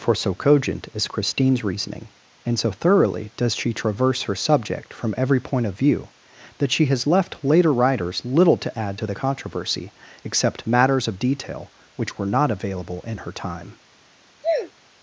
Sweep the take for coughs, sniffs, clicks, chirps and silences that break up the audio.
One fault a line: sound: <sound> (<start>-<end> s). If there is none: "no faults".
sound: sneeze (14.4-14.7 s)